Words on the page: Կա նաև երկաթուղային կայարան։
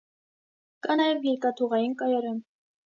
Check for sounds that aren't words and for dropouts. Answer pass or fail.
pass